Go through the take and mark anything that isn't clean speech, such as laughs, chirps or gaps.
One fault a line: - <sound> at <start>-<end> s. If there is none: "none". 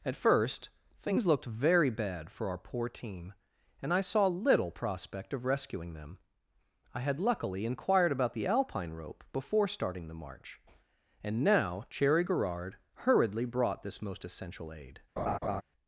- laugh at 15.2-15.6 s